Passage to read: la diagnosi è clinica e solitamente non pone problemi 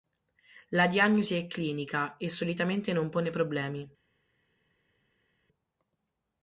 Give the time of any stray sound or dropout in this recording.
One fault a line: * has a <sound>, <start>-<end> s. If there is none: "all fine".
all fine